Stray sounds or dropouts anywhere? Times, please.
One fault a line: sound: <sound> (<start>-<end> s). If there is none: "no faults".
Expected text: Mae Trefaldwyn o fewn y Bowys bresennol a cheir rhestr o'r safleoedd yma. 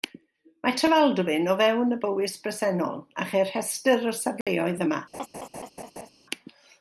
sound: dropout (4.4-4.5 s)
sound: laugh (5.1-6.1 s)